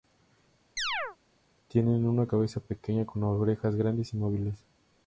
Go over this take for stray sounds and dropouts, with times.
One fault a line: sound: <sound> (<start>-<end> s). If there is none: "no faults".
sound: chirp (0.8-1.2 s)